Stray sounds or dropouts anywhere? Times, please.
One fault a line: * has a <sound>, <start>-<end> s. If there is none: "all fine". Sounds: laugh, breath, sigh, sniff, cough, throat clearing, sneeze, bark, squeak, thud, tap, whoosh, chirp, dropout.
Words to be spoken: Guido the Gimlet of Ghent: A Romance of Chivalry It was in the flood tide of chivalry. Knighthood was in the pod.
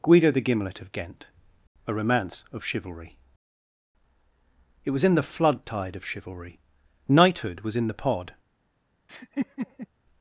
* has a laugh, 9.1-9.9 s